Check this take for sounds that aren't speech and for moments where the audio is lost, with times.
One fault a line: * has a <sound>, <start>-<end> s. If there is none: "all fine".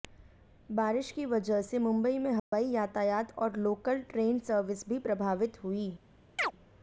* has a dropout, 2.4-2.5 s
* has a chirp, 6.4-6.5 s